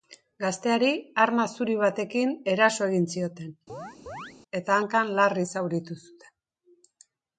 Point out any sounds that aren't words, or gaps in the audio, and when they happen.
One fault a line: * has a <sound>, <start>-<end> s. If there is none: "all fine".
* has a chirp, 3.7-4.3 s